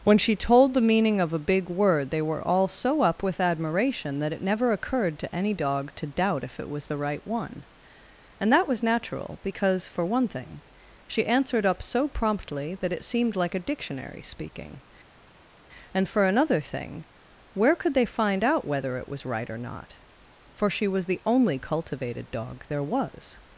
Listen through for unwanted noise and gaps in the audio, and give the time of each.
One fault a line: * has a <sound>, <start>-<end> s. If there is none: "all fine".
all fine